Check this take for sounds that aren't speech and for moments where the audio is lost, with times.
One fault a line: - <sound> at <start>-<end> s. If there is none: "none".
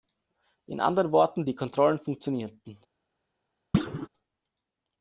- thud at 3.7-4.1 s